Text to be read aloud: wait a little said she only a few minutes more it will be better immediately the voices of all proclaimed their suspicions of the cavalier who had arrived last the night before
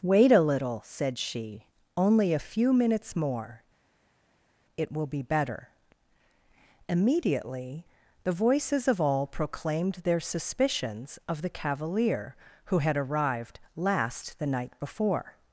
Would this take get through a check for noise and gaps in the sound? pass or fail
pass